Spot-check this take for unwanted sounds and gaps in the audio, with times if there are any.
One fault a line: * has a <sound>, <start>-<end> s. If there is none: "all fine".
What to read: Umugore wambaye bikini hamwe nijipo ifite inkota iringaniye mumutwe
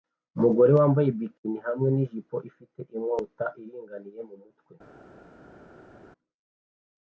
all fine